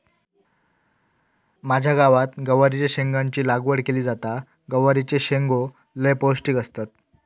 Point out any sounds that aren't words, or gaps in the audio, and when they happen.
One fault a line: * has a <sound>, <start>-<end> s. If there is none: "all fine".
all fine